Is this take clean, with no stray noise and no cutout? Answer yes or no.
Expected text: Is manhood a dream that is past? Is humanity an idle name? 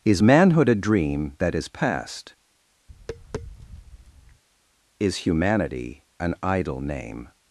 no